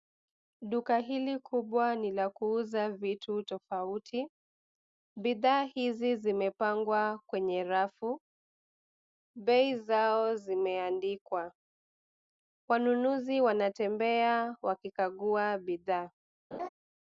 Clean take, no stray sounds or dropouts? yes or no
no